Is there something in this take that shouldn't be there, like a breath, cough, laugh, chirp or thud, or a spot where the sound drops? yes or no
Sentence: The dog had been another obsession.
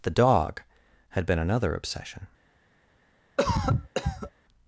yes